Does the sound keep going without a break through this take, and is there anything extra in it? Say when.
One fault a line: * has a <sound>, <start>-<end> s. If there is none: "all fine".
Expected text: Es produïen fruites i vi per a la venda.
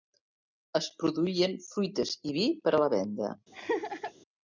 * has a laugh, 3.5-4.1 s